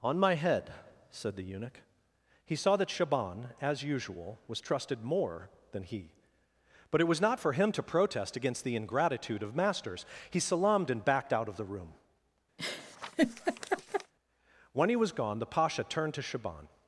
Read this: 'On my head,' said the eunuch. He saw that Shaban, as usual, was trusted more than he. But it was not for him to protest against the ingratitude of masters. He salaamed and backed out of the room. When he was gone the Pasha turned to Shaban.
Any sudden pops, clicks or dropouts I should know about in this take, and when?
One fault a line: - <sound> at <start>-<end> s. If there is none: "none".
- laugh at 12.6-14.1 s